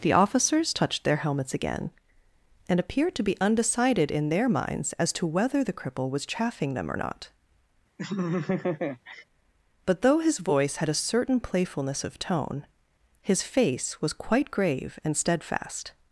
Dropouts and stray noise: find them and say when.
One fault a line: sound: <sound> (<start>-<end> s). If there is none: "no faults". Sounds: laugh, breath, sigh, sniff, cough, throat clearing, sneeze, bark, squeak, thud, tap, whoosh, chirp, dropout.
sound: laugh (8.0-9.2 s)